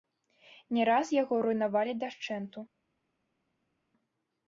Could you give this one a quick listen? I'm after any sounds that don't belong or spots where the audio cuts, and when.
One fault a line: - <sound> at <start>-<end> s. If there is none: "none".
none